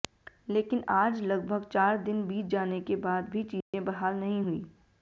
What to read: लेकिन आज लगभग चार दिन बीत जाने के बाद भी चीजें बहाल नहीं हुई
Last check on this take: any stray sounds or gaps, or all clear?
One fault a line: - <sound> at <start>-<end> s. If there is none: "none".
- dropout at 3.6-3.7 s